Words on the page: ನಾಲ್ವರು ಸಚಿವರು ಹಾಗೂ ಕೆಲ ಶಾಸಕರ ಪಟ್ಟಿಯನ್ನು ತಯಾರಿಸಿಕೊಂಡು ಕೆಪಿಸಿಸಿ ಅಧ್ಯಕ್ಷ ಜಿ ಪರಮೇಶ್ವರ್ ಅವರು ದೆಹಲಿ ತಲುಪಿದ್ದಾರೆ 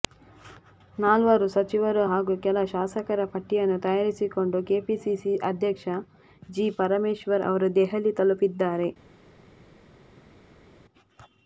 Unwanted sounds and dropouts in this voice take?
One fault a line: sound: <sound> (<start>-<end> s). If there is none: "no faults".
no faults